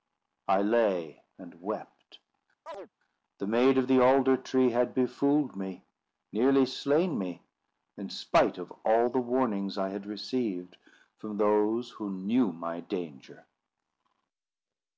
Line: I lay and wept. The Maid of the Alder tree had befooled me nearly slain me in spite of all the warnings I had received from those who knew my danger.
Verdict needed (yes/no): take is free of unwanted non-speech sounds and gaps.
no